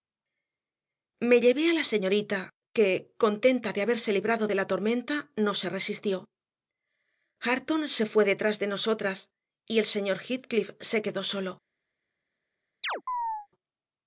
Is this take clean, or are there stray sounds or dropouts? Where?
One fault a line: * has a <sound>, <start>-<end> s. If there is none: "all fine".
* has a chirp, 12.8-13.5 s